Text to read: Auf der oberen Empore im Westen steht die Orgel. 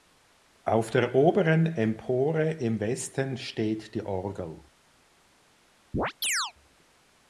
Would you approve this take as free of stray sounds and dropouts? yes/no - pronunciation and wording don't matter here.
no